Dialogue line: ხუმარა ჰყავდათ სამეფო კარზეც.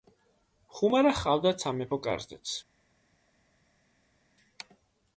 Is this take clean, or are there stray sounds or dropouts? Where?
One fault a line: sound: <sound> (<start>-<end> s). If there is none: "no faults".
no faults